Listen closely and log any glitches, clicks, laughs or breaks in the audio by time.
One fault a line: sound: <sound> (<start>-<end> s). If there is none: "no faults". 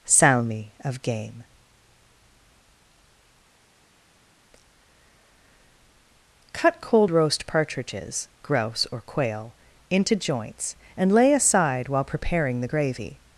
no faults